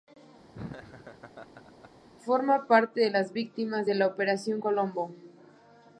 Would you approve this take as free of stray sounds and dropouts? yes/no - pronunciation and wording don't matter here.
no